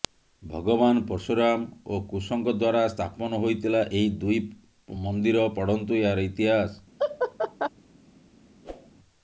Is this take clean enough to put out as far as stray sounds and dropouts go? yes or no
no